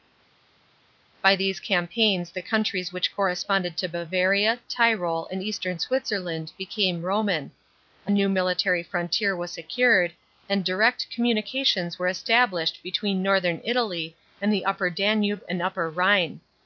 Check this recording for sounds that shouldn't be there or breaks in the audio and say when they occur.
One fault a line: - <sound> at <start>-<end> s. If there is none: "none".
none